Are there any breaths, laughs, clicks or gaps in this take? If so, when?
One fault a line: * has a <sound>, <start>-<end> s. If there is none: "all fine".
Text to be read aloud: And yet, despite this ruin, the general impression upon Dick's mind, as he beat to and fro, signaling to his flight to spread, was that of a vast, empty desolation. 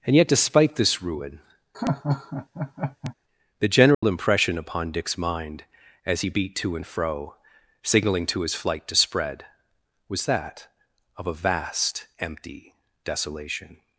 * has a laugh, 1.7-3.1 s
* has a dropout, 3.9-4.0 s